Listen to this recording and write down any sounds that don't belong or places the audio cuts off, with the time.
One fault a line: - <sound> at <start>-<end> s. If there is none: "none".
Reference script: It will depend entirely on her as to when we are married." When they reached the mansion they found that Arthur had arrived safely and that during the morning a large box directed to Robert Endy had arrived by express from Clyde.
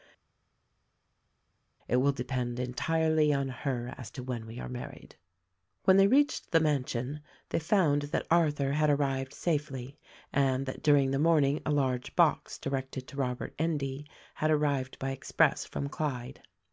none